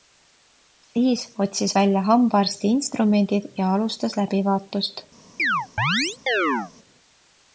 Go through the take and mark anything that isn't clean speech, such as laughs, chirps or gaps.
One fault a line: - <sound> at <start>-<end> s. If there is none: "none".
- chirp at 5.4-6.7 s